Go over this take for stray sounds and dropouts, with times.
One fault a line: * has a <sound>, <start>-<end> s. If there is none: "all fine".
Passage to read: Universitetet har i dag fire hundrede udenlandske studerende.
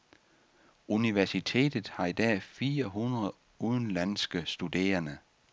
all fine